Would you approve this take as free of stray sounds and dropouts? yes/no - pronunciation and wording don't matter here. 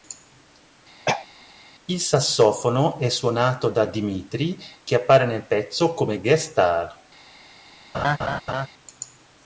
no